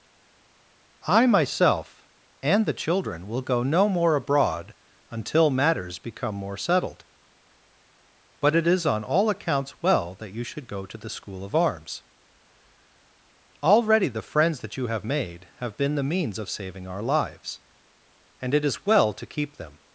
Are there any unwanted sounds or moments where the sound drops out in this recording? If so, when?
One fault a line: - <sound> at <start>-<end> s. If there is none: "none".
none